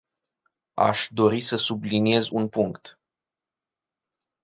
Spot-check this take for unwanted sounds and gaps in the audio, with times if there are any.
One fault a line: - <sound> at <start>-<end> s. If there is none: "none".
none